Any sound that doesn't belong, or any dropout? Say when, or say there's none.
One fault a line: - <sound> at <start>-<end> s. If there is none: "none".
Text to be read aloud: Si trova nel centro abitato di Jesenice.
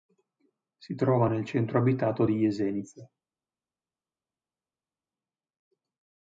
none